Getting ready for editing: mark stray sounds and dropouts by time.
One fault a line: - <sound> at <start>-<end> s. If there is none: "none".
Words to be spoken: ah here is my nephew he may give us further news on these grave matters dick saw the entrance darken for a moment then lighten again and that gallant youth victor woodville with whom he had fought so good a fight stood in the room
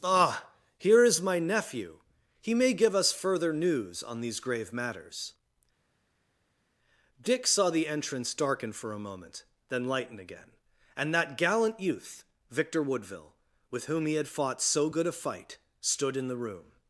none